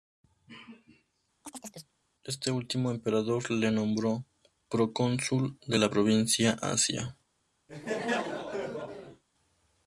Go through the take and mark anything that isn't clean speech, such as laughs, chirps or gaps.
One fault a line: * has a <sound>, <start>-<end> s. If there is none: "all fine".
* has a chirp, 1.4-1.9 s
* has a laugh, 7.7-9.2 s